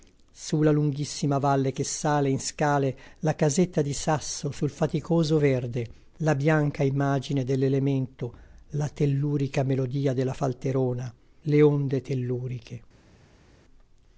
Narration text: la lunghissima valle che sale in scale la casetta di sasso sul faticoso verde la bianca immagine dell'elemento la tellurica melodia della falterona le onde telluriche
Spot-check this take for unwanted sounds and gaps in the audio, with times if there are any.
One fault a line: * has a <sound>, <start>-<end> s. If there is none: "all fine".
all fine